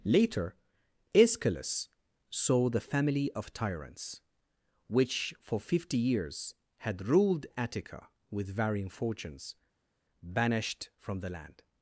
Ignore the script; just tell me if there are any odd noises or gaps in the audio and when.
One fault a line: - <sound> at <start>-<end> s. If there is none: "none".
none